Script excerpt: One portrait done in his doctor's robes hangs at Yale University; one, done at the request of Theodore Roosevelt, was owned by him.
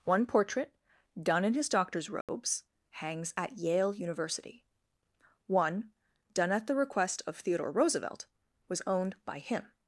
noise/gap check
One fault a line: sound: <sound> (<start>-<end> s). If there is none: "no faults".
sound: dropout (2.2-2.3 s)